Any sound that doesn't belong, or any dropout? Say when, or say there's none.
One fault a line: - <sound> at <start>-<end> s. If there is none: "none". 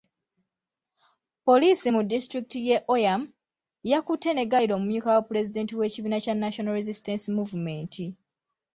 none